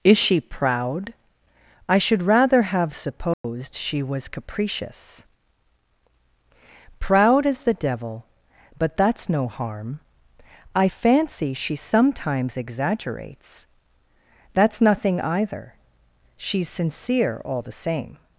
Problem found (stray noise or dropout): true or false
true